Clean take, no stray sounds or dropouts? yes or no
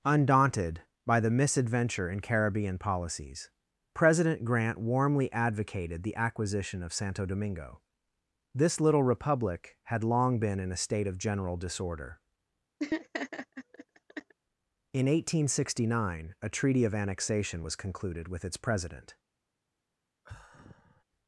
no